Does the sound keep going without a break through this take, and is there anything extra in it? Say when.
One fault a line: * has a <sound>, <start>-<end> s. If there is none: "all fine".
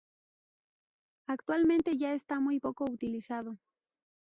all fine